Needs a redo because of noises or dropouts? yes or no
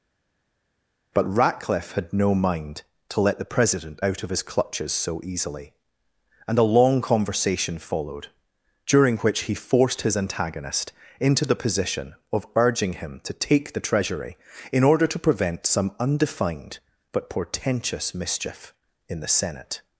no